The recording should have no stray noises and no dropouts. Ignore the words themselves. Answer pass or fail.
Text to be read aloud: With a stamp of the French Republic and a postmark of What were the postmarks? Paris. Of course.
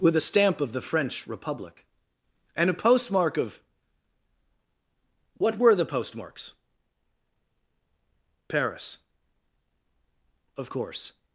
pass